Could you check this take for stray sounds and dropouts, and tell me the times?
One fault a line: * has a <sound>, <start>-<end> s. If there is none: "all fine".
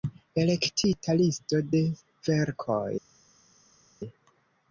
all fine